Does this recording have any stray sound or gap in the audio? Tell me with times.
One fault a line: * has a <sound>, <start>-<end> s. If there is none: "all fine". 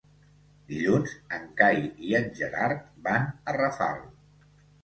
all fine